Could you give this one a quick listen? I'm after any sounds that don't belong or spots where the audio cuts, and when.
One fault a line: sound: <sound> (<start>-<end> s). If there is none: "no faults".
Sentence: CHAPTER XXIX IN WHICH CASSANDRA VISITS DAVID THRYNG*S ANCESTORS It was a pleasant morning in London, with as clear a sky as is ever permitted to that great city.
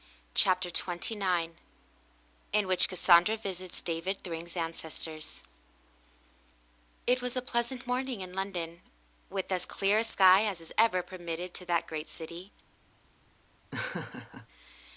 sound: laugh (13.7-14.5 s)